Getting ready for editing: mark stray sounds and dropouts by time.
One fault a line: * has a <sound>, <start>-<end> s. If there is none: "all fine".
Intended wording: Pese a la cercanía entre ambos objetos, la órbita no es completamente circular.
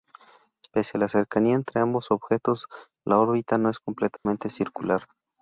* has a dropout, 4.2-4.3 s